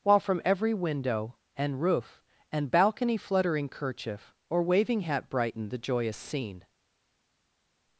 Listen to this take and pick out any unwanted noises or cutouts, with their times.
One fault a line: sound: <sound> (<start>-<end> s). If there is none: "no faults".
no faults